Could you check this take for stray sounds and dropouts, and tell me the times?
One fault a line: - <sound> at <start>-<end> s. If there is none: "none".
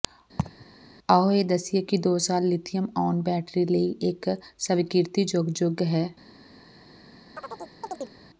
- laugh at 0.4-0.7 s
- chirp at 7.3-8.2 s